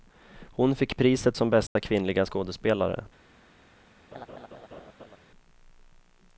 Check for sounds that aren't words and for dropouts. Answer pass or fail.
fail